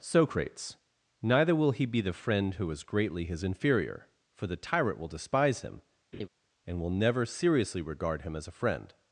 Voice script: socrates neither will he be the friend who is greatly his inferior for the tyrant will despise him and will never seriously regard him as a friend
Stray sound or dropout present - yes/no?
yes